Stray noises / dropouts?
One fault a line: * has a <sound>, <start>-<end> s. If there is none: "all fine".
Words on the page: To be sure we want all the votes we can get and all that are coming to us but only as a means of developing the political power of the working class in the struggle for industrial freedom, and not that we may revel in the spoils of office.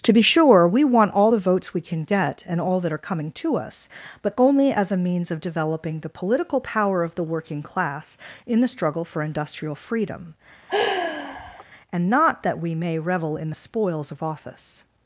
* has a sigh, 10.7-11.6 s